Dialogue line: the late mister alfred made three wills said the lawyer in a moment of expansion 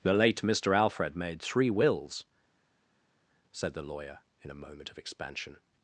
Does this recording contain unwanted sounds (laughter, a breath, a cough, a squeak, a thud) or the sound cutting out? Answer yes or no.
no